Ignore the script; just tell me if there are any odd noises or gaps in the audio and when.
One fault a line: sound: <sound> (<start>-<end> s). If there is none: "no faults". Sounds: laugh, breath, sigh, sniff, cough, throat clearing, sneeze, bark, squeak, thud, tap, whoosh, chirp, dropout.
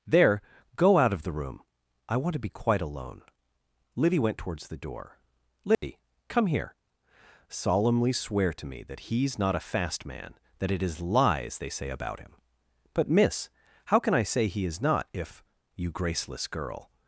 sound: dropout (5.7-5.8 s)